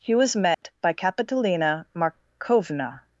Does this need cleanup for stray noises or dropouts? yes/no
yes